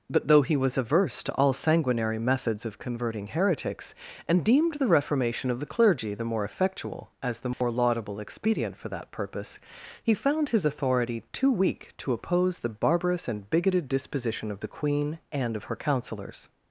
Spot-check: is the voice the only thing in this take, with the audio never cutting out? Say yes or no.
no